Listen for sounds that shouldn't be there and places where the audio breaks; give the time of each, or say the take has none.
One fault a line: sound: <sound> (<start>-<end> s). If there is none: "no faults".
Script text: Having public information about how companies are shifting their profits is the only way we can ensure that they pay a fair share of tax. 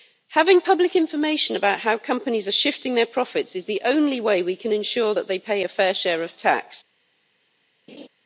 sound: laugh (7.9-8.1 s)